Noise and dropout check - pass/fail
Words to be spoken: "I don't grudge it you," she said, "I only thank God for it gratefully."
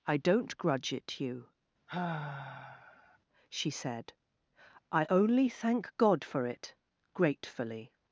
fail